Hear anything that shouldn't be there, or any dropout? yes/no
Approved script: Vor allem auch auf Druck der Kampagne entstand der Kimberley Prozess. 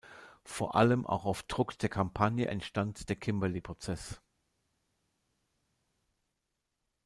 no